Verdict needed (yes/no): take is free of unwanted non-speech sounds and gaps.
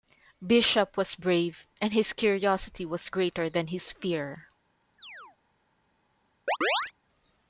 no